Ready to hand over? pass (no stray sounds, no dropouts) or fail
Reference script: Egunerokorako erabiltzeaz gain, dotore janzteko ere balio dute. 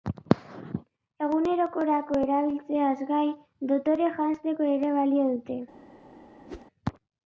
fail